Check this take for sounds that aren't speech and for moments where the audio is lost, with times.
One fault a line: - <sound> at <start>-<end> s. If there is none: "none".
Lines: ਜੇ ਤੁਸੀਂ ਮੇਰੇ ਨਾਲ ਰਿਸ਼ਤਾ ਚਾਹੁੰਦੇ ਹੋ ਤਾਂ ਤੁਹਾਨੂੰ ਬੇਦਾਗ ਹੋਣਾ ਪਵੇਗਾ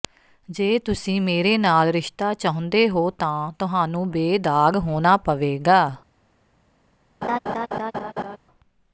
- laugh at 7.2-8.4 s